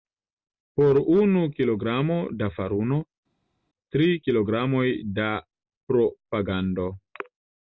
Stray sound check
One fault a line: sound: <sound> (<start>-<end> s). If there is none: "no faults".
no faults